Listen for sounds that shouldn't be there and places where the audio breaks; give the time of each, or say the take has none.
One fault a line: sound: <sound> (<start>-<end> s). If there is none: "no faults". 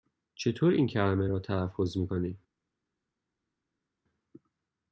no faults